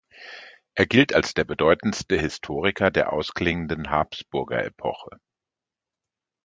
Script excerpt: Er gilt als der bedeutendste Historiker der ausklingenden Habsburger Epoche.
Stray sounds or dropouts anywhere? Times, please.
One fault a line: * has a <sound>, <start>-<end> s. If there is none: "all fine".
all fine